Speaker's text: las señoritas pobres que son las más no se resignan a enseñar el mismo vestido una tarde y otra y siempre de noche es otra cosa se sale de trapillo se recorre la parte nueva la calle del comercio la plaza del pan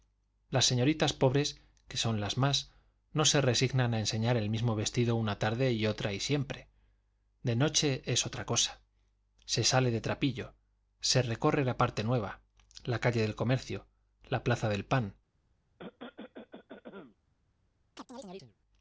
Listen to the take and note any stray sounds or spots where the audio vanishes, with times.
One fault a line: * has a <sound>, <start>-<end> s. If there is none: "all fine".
* has a cough, 15.8-17.2 s
* has a chirp, 18.0-18.6 s